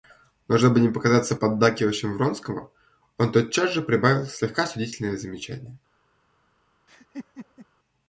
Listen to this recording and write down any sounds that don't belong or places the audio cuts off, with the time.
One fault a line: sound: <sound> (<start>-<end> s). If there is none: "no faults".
sound: laugh (6.9-7.7 s)